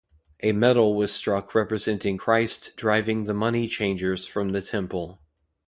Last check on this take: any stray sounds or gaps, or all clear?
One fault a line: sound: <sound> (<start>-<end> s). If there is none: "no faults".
no faults